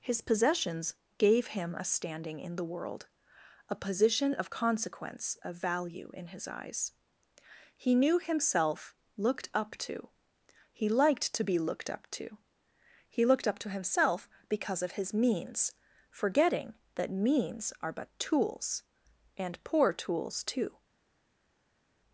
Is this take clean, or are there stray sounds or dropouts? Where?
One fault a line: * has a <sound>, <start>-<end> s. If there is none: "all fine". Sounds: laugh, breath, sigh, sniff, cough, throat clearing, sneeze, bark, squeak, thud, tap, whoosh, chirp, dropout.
all fine